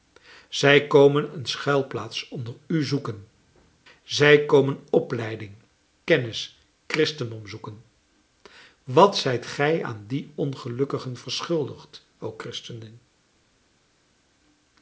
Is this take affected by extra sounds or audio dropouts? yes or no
no